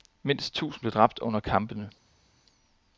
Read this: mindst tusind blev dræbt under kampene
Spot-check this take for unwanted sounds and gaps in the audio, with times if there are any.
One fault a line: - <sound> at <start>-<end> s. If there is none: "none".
none